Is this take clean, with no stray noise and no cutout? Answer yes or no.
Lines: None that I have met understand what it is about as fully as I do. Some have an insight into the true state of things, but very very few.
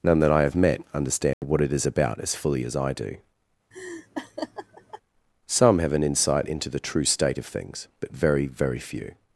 no